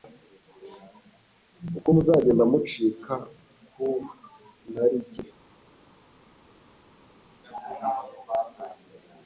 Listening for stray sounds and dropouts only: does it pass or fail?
pass